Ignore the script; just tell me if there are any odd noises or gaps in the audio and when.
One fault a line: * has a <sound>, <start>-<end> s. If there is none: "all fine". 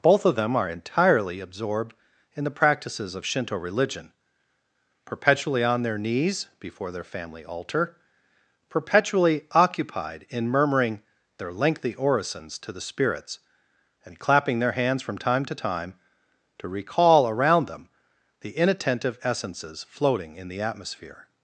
all fine